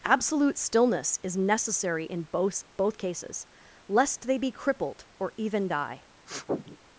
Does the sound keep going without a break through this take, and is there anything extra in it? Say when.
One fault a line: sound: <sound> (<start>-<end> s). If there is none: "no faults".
sound: sniff (6.3-6.8 s)